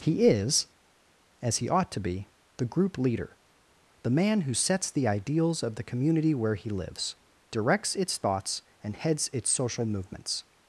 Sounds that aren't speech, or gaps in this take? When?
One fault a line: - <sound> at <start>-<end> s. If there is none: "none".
none